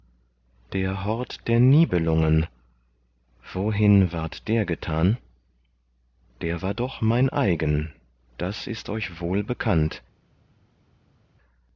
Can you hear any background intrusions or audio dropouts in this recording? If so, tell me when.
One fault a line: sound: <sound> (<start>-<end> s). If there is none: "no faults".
no faults